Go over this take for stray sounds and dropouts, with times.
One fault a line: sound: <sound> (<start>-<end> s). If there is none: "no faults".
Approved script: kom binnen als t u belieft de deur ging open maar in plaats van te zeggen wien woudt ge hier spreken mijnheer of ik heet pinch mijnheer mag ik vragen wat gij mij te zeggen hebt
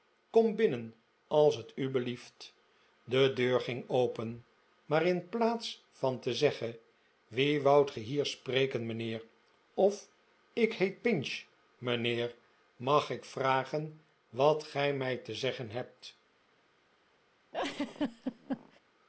sound: laugh (17.5-18.8 s)